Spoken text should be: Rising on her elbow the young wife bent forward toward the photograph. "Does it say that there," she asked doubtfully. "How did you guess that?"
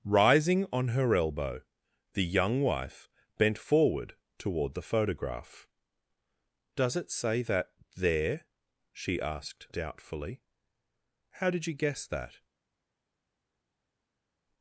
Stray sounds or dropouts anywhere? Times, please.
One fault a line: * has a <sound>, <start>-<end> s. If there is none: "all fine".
all fine